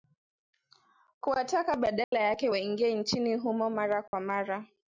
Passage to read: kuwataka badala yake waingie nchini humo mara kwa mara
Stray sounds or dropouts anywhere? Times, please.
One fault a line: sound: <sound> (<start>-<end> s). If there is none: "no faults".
sound: dropout (2.0-2.1 s)
sound: dropout (4.1-4.1 s)